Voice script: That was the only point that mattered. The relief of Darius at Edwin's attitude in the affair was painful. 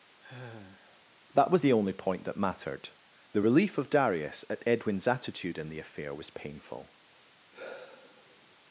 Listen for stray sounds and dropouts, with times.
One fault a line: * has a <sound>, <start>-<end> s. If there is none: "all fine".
* has a sigh, 0.2-1.0 s
* has a sigh, 7.5-8.6 s